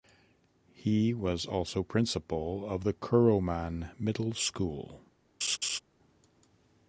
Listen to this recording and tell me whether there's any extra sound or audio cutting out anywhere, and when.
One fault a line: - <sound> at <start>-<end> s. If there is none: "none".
- laugh at 5.4-5.8 s